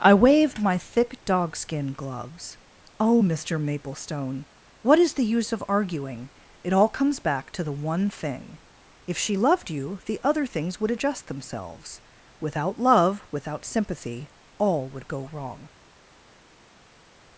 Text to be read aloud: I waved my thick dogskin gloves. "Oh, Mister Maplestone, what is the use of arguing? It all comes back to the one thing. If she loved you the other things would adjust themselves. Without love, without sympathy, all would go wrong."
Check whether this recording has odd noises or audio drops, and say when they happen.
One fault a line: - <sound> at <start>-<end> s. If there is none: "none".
none